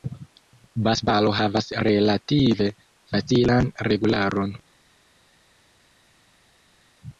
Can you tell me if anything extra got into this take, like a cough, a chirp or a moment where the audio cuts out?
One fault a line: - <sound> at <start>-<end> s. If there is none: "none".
none